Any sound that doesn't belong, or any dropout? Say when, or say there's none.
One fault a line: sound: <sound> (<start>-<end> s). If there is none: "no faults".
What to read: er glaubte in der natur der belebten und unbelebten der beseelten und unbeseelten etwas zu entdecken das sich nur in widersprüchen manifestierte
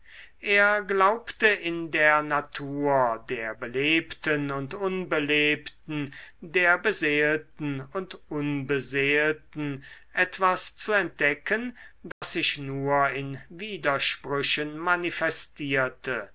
sound: dropout (12.1-12.2 s)